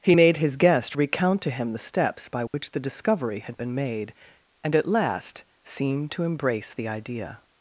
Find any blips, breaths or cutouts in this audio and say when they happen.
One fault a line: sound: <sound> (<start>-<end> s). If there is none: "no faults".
sound: dropout (2.5-2.5 s)